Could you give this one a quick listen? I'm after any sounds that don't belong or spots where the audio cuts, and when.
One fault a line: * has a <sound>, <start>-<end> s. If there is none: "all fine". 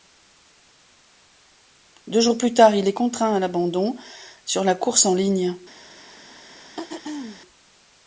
* has a throat clearing, 6.8-7.4 s